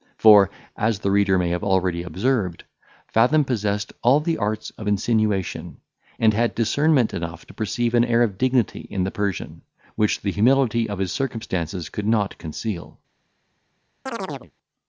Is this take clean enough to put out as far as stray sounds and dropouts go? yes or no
no